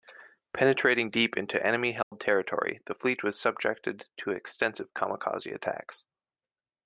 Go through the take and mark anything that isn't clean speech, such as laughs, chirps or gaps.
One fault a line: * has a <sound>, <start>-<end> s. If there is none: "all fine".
* has a dropout, 2.0-2.1 s